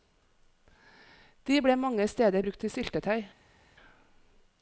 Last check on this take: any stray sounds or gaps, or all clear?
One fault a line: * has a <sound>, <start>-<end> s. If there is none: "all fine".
all fine